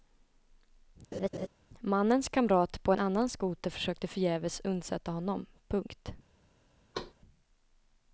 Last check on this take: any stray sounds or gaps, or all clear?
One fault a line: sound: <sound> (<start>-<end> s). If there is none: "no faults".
sound: laugh (1.1-1.5 s)
sound: thud (6.9-7.1 s)